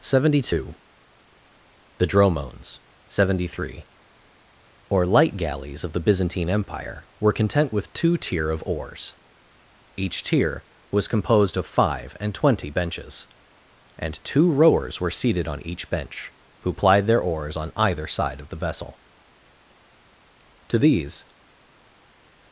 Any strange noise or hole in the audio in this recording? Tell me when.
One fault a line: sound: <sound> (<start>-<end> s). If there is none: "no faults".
no faults